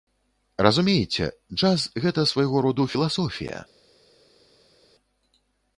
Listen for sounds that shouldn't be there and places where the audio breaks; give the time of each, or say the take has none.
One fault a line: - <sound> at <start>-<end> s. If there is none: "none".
none